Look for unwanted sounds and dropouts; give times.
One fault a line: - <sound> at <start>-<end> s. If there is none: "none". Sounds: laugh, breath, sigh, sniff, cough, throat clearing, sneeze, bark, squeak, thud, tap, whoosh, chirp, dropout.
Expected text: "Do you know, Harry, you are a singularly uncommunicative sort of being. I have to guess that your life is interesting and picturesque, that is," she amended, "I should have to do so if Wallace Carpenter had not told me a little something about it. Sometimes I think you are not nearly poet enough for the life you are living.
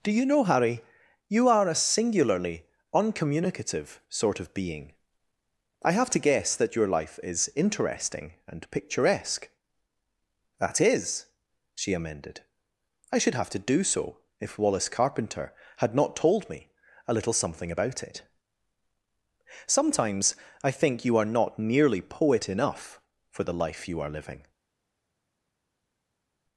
none